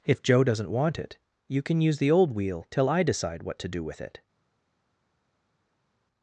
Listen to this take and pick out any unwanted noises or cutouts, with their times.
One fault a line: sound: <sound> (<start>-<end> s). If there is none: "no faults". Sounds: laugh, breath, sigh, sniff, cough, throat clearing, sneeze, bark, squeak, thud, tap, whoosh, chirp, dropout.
no faults